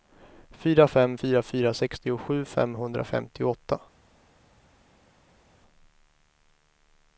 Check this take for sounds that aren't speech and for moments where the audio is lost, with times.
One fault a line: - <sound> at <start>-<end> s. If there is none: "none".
none